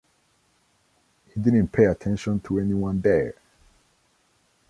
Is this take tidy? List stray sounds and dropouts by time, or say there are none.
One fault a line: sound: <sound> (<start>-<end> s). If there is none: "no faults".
no faults